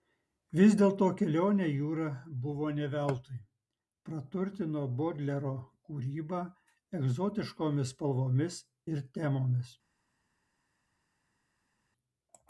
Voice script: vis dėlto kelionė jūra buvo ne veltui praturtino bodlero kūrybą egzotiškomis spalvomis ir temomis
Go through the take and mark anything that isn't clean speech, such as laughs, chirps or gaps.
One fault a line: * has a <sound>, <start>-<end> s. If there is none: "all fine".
all fine